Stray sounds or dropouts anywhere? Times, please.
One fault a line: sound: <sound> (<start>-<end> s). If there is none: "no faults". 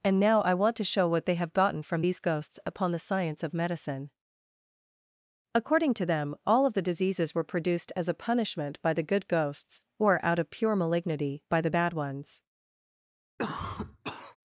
sound: cough (13.4-14.4 s)